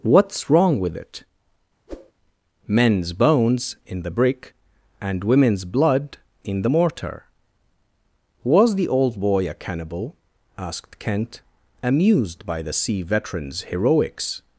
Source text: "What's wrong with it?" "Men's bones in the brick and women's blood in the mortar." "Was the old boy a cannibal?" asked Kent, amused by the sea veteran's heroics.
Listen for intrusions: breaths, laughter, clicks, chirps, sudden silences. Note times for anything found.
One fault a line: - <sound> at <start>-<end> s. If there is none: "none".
- whoosh at 1.9-2.1 s